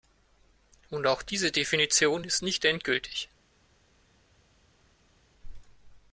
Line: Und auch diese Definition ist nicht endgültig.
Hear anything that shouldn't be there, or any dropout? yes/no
no